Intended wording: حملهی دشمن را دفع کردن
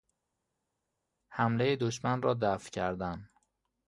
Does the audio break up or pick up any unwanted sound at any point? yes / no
no